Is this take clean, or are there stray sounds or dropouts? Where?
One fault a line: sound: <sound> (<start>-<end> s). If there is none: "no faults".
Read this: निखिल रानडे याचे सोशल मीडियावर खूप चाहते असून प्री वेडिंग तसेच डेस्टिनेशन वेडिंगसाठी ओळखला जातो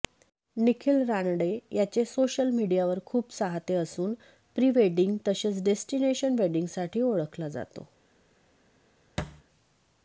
sound: thud (9.2-9.4 s)